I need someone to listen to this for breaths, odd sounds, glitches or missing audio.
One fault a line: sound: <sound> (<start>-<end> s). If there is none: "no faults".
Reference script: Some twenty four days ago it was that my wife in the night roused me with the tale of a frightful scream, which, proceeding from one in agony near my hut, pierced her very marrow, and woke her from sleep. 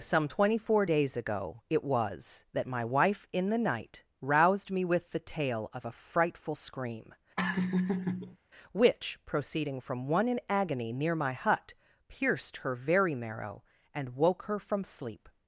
sound: laugh (7.4-8.4 s)